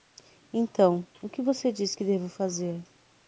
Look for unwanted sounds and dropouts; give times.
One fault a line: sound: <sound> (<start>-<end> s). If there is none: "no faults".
no faults